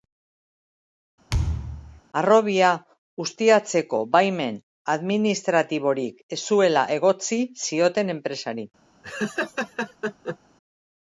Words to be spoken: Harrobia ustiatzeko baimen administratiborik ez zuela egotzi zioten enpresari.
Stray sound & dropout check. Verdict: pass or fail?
fail